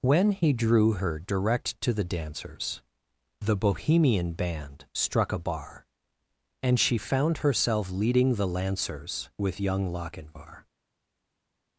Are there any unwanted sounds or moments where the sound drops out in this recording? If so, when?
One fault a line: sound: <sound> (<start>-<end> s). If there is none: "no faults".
no faults